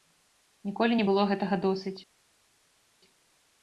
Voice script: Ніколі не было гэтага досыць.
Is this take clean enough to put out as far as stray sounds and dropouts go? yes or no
yes